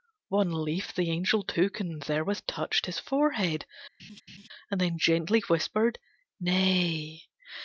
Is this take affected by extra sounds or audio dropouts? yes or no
yes